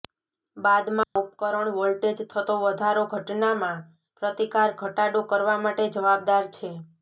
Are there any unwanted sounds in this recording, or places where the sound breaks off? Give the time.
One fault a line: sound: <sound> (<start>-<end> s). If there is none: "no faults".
sound: dropout (1.0-1.2 s)